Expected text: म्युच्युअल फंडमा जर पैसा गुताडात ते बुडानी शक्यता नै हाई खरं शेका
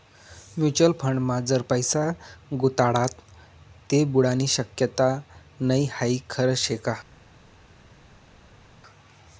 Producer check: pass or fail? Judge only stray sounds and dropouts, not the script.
pass